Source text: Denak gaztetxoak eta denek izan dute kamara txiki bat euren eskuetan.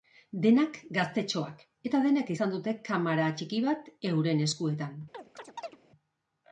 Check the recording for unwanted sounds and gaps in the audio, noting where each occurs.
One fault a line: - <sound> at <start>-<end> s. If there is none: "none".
- chirp at 5.1-5.8 s